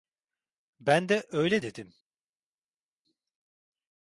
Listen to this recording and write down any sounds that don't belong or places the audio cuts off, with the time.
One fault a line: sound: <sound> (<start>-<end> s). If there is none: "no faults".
no faults